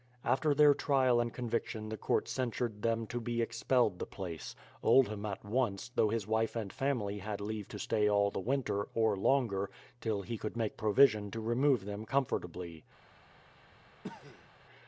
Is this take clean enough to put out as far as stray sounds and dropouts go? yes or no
no